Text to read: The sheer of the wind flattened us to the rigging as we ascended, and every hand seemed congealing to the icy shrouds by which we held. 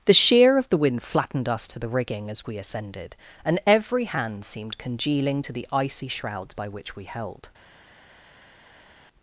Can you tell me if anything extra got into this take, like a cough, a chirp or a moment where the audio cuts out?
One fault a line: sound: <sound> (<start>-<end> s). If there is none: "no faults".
no faults